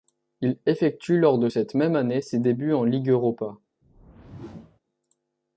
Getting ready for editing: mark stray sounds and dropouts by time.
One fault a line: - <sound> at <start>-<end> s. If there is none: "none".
- whoosh at 3.8-4.8 s